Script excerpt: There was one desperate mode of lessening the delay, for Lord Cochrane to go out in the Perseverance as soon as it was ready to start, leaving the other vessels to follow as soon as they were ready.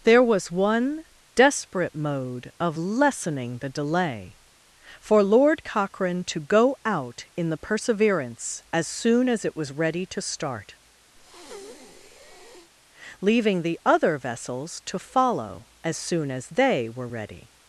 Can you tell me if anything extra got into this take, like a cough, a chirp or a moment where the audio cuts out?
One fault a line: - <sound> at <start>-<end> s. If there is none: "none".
- breath at 11.2-12.7 s